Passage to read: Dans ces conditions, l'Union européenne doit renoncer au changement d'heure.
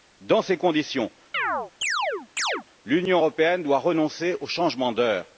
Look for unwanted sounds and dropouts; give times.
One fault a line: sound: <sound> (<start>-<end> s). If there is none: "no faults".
sound: chirp (1.3-2.6 s)